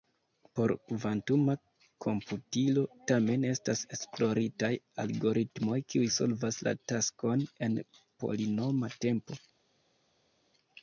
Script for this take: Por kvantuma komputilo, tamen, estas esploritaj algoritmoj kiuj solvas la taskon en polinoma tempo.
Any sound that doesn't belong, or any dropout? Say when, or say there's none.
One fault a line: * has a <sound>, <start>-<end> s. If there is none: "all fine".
all fine